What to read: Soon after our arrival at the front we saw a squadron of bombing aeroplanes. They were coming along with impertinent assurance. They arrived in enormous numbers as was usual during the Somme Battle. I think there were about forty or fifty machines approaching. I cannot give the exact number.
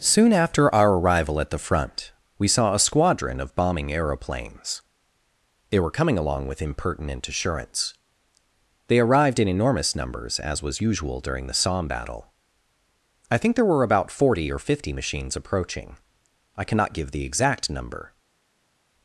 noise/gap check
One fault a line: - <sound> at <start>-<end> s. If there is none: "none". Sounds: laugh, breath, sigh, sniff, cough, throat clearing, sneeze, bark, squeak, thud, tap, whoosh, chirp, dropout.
none